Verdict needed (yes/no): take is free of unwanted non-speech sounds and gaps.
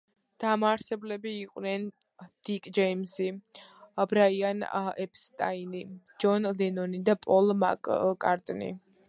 yes